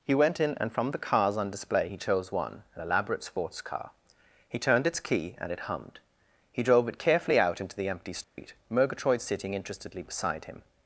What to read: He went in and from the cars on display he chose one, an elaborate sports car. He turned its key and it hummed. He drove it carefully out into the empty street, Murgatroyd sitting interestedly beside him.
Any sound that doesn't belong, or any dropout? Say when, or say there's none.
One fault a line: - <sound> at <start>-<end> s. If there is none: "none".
- dropout at 8.2-8.4 s